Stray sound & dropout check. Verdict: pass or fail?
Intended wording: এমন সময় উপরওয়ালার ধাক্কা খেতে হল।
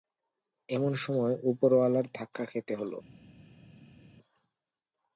pass